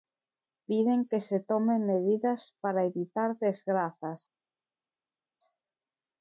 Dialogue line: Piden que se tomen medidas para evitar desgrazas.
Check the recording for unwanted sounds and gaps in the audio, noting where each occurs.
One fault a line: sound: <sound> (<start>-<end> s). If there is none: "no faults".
no faults